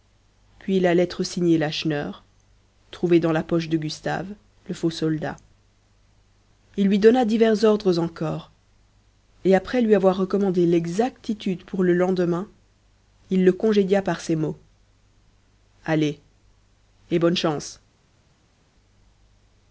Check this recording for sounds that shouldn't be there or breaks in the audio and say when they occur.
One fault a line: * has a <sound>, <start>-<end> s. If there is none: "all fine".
all fine